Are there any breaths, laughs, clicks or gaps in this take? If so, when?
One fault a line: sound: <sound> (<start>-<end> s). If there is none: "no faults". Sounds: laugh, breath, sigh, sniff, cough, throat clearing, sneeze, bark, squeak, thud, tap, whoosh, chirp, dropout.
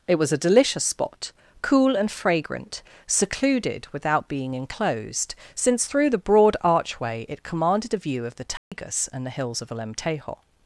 sound: dropout (8.6-8.7 s)